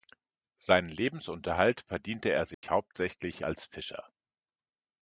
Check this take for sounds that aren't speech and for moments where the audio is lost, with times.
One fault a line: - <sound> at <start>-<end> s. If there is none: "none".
- dropout at 2.5-2.6 s